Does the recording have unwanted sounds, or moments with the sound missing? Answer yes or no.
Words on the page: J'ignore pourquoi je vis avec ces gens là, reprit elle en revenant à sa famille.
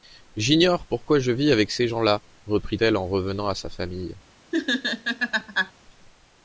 yes